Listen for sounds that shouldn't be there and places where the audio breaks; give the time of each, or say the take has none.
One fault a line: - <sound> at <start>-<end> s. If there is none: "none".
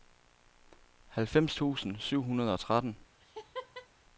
- laugh at 3.2-3.9 s